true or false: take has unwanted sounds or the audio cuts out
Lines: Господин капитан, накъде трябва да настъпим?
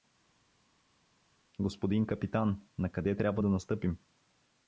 false